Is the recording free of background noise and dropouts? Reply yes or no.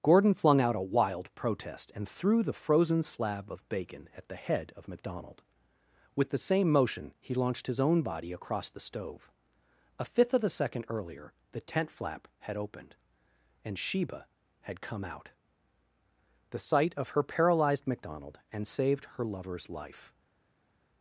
yes